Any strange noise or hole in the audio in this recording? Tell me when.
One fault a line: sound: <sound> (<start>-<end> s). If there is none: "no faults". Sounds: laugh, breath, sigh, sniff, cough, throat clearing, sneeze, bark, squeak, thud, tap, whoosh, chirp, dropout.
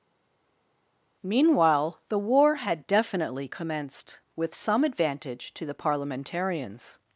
no faults